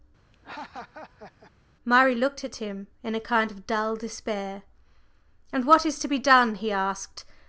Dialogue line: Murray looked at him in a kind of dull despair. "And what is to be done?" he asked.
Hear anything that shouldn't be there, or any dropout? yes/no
yes